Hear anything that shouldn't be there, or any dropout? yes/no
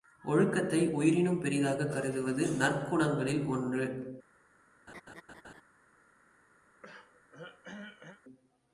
yes